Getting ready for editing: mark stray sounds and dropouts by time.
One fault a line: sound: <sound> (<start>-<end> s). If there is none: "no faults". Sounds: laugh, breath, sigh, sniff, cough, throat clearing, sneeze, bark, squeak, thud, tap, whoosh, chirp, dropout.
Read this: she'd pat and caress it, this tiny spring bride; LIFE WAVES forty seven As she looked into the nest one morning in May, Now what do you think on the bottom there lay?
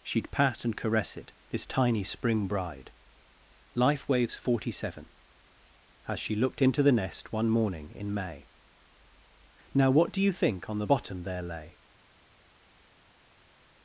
no faults